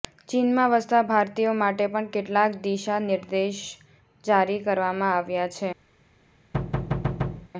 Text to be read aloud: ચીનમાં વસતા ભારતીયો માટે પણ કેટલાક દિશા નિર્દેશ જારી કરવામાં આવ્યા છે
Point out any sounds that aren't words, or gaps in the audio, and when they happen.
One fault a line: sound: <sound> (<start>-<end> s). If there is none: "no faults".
sound: thud (6.5-7.5 s)